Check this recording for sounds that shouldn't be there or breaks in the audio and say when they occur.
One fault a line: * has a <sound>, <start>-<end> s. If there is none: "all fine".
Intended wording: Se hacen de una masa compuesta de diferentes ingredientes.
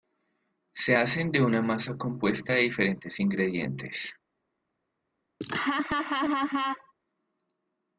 * has a laugh, 5.4-6.9 s